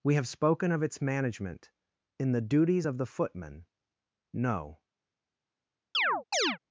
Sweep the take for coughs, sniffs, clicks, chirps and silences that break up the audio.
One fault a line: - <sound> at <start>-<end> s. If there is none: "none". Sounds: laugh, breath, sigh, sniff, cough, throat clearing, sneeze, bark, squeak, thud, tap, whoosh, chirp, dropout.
- chirp at 5.9-6.6 s